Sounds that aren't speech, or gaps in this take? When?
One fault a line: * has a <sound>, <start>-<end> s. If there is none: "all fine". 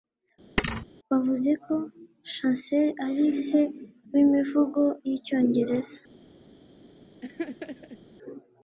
* has a thud, 0.6-0.9 s
* has a laugh, 7.2-8.0 s